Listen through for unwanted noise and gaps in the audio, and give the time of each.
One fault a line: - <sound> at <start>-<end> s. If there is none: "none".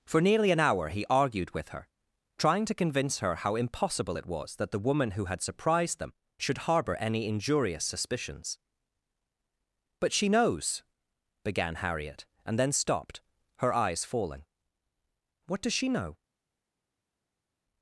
none